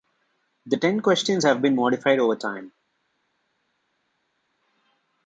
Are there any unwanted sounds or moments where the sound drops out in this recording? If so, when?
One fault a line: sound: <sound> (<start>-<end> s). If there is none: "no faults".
no faults